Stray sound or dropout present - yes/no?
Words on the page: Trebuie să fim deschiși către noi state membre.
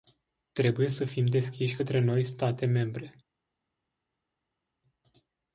no